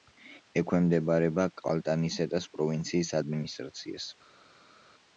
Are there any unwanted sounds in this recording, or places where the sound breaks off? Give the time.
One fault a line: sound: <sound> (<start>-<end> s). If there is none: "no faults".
no faults